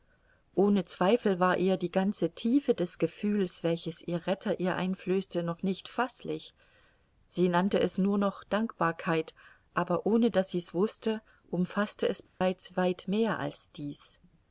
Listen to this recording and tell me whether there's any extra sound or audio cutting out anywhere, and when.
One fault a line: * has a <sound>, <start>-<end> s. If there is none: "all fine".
* has a dropout, 12.3-12.4 s